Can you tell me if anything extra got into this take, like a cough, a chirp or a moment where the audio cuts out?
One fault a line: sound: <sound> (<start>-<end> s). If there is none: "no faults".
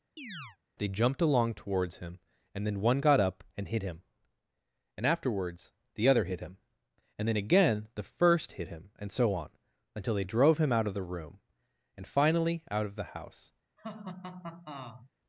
sound: chirp (0.2-0.6 s)
sound: laugh (13.8-15.1 s)